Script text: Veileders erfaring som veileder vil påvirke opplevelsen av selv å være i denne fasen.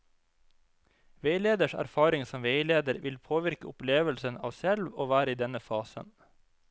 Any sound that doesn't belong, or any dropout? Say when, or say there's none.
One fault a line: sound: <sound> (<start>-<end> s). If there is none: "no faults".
no faults